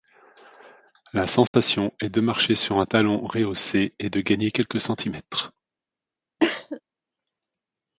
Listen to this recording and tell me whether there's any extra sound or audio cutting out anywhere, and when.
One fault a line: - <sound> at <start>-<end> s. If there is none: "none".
- dropout at 1.5-1.5 s
- cough at 6.4-6.8 s